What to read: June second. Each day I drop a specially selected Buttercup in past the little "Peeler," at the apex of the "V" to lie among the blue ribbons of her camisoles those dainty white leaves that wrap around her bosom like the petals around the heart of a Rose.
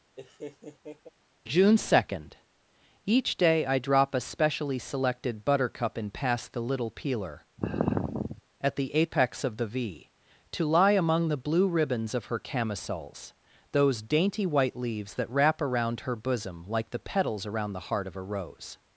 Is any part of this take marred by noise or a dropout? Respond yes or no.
yes